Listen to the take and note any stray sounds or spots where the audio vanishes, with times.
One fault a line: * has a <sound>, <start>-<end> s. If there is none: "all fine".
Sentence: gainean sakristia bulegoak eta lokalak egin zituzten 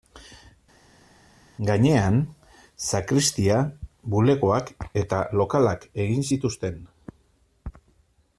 all fine